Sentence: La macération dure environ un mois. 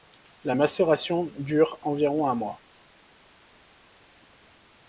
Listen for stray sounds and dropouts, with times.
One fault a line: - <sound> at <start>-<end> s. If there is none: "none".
none